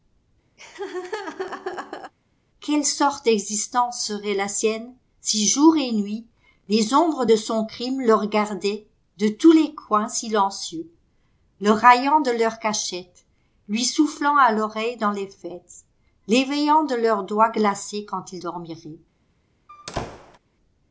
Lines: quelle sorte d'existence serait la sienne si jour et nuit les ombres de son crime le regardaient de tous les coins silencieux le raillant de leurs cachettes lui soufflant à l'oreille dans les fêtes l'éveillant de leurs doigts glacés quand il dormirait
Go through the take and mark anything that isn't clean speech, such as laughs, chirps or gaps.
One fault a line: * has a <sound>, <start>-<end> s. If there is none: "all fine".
* has a laugh, 0.6-2.1 s
* has a squeak, 19.7-20.4 s